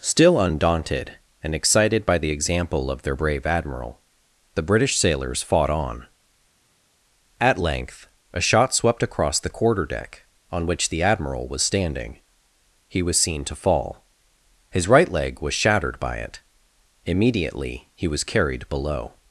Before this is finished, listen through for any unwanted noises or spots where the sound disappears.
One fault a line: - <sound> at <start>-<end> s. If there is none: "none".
none